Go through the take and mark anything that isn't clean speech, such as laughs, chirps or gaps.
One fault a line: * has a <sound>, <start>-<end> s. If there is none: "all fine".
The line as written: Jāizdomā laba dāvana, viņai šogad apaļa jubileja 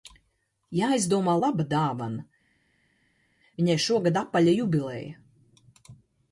all fine